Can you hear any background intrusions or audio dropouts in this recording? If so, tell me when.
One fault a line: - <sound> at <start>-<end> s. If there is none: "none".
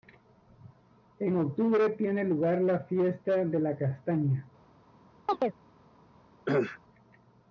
- chirp at 5.3-5.6 s
- cough at 6.5-6.8 s